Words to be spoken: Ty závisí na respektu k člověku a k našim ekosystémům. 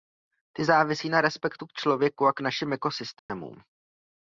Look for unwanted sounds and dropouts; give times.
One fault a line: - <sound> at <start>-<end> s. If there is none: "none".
- dropout at 3.2-3.3 s